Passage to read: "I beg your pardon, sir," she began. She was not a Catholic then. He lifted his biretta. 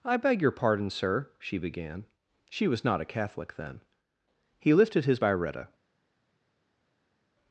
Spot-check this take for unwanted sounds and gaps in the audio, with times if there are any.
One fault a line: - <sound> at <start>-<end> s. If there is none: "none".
none